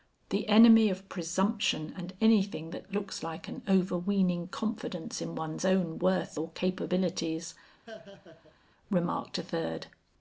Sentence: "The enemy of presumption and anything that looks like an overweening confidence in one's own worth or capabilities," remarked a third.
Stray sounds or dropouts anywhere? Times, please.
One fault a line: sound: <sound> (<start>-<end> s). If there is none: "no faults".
sound: laugh (7.9-8.6 s)